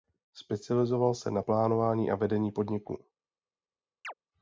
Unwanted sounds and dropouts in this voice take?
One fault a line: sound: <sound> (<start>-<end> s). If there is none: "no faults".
sound: chirp (4.0-4.1 s)